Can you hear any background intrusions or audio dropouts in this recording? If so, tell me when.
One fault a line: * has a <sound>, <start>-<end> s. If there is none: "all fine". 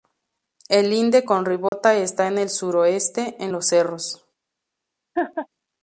* has a dropout, 1.7-1.7 s
* has a laugh, 5.2-5.5 s